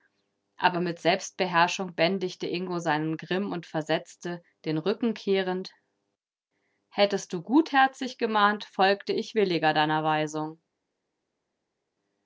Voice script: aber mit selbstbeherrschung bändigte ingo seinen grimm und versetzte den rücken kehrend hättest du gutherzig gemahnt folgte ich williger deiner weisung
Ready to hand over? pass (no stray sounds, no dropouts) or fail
pass